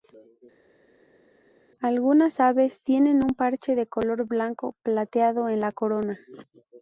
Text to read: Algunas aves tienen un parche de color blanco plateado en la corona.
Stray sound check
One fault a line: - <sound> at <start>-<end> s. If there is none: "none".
none